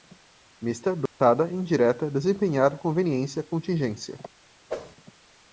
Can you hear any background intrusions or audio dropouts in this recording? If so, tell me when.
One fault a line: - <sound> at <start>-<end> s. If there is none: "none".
- dropout at 1.1-1.2 s
- whoosh at 4.7-5.0 s